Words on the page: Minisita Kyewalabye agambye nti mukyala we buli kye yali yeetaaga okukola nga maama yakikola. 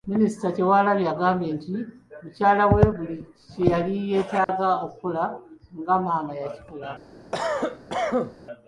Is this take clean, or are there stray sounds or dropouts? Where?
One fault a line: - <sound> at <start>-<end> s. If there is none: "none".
- dropout at 4.4-4.5 s
- cough at 7.3-8.3 s